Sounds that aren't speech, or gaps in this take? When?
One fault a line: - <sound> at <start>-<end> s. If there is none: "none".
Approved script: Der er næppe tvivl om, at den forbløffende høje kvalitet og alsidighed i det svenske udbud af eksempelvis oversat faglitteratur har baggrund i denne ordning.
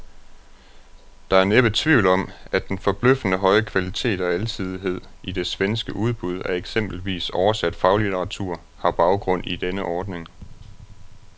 none